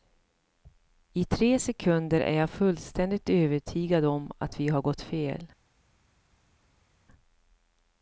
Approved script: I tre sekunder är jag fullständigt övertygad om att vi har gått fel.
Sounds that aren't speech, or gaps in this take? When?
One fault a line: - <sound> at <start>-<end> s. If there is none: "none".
none